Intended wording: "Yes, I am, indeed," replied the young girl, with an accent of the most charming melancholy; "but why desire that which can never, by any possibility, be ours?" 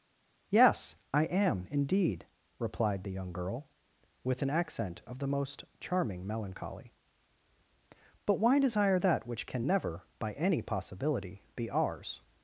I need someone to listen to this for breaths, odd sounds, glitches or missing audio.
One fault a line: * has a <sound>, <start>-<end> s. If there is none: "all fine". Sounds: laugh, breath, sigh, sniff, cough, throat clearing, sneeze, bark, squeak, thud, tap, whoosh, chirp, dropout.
all fine